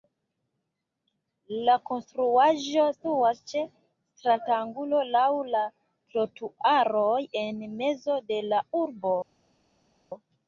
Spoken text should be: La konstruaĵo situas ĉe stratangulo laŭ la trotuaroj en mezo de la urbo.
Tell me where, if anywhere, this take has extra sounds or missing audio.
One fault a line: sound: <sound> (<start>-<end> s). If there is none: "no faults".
no faults